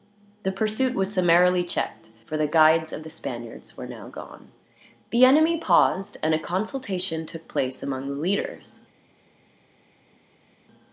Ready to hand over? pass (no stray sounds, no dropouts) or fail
pass